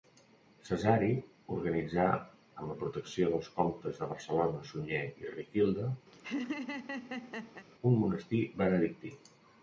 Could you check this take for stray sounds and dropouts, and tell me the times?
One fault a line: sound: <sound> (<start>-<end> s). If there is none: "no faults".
sound: laugh (6.1-7.7 s)